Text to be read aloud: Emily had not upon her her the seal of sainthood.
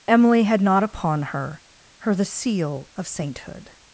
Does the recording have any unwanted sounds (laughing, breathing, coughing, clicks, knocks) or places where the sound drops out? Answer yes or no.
no